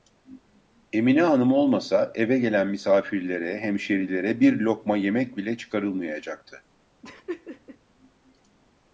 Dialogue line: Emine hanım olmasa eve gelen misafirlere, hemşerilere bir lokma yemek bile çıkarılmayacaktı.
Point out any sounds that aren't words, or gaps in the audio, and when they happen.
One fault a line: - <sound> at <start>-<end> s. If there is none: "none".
- laugh at 7.0-7.8 s